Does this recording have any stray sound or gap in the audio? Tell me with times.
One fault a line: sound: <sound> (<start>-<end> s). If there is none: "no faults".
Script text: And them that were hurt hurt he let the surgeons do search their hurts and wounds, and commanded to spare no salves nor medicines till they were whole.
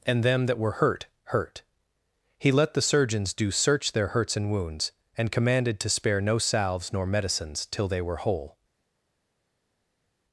no faults